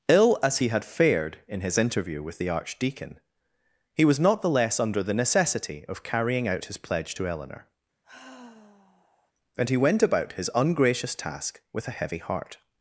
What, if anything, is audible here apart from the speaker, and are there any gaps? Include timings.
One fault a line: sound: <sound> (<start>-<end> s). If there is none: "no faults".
sound: sigh (8.0-9.3 s)